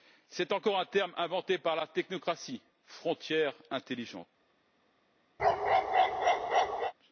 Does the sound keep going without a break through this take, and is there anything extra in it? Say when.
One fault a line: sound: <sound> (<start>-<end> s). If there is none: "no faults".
sound: bark (5.4-6.9 s)